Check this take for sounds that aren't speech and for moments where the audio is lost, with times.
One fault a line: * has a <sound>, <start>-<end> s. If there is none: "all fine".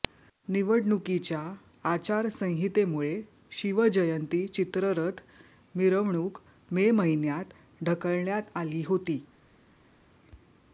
all fine